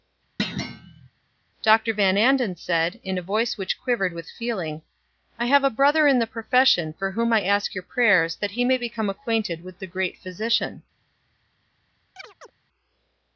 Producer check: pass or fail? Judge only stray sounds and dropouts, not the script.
fail